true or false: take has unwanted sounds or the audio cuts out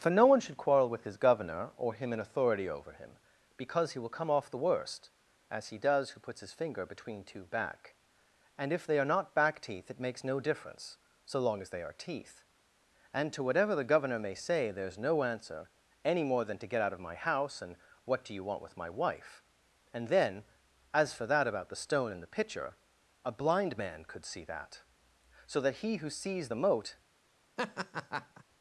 true